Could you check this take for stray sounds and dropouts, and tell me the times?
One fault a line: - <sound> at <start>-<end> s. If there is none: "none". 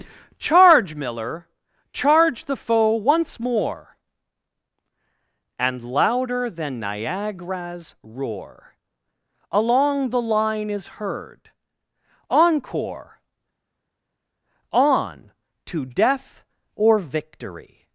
none